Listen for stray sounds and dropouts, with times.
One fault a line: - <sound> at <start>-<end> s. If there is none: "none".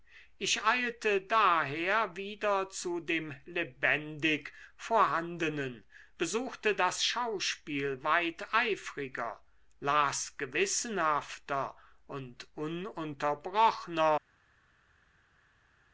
none